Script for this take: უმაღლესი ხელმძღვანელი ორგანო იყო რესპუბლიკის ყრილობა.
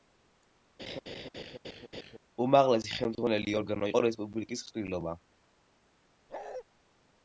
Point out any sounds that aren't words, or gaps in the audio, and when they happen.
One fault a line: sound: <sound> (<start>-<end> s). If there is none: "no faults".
sound: laugh (0.8-2.2 s)
sound: bark (6.3-6.6 s)